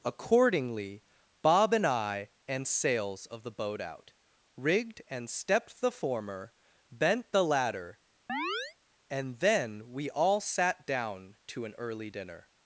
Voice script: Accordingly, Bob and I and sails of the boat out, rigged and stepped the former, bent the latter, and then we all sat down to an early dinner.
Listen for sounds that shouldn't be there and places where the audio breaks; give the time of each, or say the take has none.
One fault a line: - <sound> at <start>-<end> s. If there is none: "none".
- chirp at 8.3-8.8 s